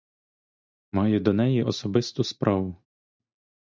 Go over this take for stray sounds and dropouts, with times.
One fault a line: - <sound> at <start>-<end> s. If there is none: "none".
none